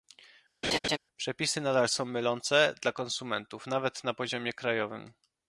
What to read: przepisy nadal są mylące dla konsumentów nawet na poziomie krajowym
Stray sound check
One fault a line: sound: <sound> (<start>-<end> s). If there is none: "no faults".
sound: laugh (0.6-1.0 s)